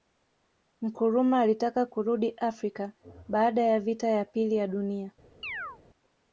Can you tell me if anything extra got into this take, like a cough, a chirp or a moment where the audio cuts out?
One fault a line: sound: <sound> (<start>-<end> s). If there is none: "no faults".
sound: chirp (5.4-5.8 s)